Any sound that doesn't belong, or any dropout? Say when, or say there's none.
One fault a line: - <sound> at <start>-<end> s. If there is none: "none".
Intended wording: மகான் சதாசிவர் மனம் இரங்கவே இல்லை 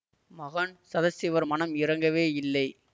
none